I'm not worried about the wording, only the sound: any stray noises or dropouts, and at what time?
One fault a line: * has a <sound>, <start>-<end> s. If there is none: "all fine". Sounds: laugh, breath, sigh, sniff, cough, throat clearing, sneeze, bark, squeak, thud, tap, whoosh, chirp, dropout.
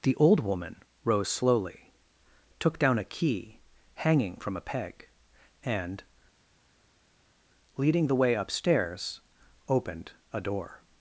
all fine